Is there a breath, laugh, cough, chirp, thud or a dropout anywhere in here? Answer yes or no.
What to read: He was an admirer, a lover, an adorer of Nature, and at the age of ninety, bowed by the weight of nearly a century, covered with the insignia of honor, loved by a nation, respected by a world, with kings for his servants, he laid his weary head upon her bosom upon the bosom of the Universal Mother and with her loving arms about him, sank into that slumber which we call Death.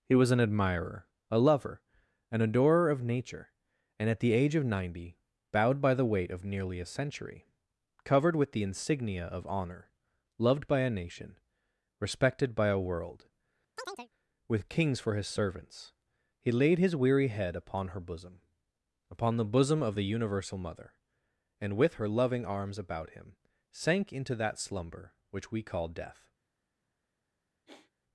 yes